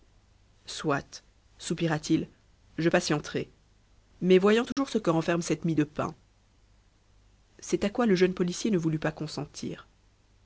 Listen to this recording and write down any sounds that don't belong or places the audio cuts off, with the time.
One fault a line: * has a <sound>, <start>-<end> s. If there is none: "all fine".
* has a dropout, 4.7-4.8 s